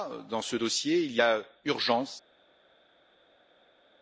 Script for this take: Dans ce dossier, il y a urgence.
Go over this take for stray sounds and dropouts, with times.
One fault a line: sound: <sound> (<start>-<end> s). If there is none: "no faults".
no faults